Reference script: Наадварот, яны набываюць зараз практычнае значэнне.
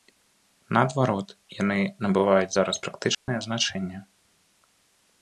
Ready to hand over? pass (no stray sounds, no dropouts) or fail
fail